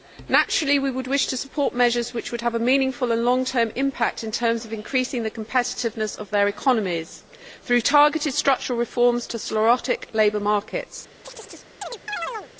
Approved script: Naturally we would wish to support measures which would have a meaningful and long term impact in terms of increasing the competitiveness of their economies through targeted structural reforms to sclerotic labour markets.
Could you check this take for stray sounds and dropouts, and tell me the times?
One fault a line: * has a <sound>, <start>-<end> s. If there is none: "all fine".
* has a chirp, 11.2-12.5 s